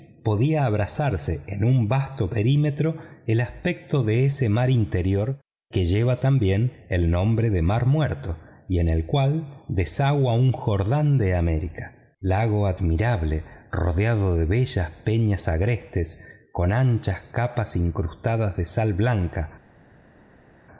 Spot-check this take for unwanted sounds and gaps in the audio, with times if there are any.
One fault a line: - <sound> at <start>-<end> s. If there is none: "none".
none